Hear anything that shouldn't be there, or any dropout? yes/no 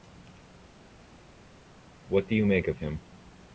no